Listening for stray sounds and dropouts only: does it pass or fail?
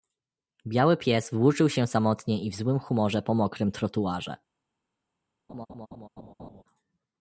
fail